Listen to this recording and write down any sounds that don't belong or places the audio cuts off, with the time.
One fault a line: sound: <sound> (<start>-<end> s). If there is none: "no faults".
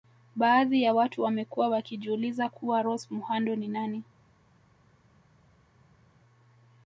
no faults